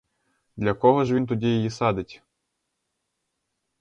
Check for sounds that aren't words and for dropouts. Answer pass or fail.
pass